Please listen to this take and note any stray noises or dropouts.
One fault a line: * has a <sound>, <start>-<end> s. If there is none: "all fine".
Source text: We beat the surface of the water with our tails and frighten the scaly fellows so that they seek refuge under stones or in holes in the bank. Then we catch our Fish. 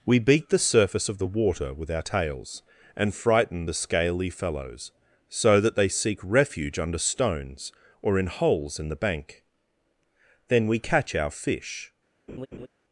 * has a laugh, 12.3-12.7 s